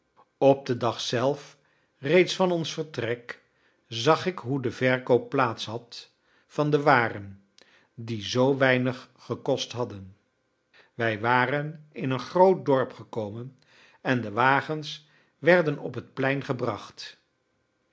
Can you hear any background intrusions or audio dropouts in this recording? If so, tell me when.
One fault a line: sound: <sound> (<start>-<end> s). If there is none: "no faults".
no faults